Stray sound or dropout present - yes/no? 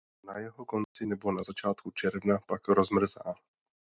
yes